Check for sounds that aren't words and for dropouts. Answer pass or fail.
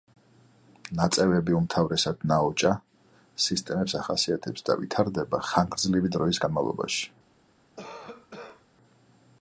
fail